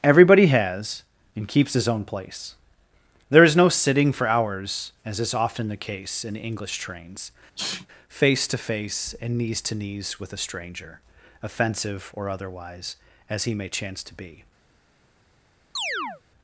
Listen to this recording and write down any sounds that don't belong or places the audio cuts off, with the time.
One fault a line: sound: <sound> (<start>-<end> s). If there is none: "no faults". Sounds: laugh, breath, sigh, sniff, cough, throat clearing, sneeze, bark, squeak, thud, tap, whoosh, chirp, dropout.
sound: sneeze (7.6-7.9 s)
sound: chirp (15.8-16.2 s)